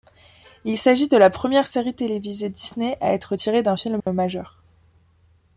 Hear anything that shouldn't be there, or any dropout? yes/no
yes